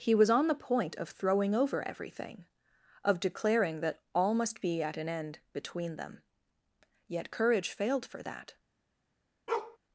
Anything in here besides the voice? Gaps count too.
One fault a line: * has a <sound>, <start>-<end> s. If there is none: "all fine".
* has a bark, 9.5-9.8 s